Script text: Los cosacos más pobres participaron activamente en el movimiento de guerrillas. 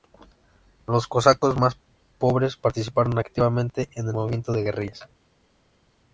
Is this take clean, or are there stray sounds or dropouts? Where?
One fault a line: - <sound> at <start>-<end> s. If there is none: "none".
none